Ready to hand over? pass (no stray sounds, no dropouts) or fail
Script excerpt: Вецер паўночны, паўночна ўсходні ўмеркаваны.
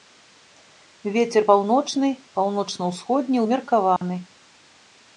fail